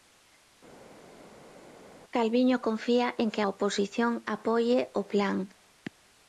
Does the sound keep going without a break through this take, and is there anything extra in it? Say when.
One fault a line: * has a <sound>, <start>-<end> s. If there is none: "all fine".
all fine